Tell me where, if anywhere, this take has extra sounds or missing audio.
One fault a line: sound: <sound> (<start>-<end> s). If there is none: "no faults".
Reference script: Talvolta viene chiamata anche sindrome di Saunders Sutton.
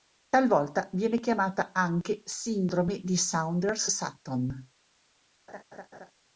sound: laugh (5.5-6.1 s)